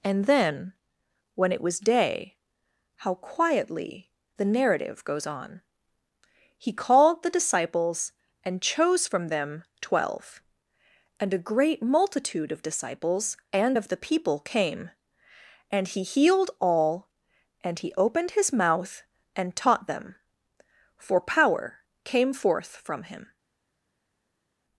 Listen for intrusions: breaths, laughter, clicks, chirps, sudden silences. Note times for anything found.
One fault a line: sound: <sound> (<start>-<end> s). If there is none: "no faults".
no faults